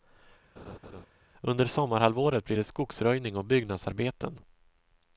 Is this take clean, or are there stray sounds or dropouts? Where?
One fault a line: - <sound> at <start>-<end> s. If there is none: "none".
- laugh at 0.6-1.1 s